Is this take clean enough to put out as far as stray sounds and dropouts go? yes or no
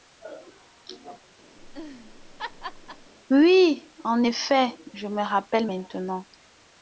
no